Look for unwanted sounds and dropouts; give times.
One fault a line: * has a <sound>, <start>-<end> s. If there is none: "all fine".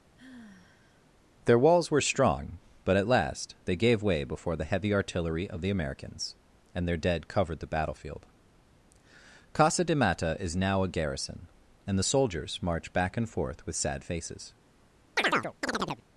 * has a sigh, 0.2-1.1 s
* has a chirp, 15.2-16.0 s